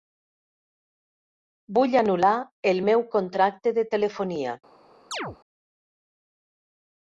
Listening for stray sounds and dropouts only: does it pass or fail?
fail